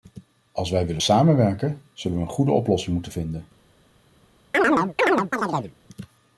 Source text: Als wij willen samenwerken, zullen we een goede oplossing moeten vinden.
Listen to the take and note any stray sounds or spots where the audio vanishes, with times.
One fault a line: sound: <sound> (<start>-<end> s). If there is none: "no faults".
sound: chirp (4.5-5.8 s)